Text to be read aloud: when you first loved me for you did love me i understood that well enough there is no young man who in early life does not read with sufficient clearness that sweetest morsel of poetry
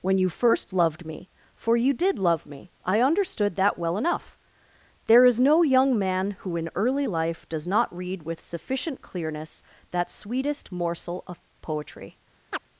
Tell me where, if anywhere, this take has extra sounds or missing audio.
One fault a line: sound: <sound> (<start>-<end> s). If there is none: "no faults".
sound: chirp (12.5-12.6 s)